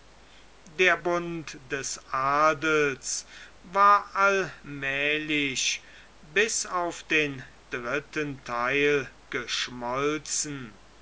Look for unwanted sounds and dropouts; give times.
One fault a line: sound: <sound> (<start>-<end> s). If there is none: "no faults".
no faults